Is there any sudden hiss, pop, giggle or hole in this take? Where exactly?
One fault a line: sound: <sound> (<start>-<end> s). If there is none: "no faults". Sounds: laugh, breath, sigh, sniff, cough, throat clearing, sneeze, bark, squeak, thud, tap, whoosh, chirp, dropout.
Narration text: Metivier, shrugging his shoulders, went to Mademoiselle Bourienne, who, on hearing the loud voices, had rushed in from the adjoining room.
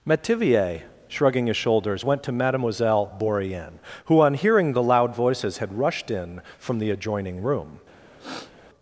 sound: sniff (8.2-8.5 s)